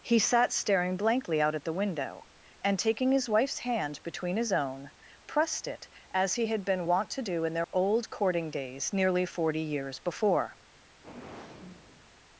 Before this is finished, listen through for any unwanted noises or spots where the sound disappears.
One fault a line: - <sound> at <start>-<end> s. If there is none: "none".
- dropout at 7.6-7.7 s
- sigh at 11.0-12.1 s